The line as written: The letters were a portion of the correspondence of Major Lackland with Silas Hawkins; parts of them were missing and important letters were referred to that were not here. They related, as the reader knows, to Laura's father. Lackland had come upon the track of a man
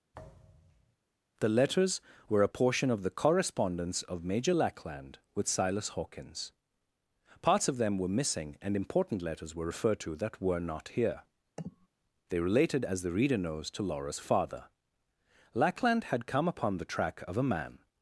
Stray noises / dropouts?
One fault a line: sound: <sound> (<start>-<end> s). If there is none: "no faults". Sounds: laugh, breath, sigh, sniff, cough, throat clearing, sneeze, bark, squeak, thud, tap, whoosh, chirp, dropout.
sound: thud (0.1-1.0 s)
sound: sniff (11.6-11.9 s)